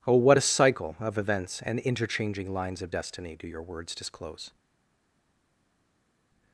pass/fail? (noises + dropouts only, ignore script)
pass